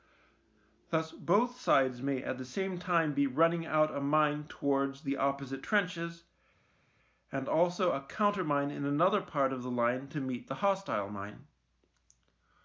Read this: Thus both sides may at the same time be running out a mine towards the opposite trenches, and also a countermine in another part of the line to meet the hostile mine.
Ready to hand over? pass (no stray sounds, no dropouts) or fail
pass